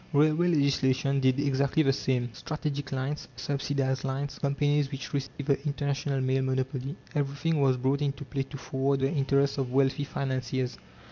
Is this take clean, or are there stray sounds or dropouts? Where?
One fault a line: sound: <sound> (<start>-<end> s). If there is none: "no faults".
sound: dropout (5.3-5.4 s)